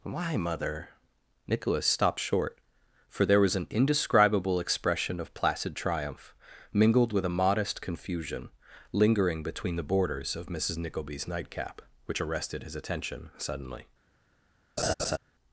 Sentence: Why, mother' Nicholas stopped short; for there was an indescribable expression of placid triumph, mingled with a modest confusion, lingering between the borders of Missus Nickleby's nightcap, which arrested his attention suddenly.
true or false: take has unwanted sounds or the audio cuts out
true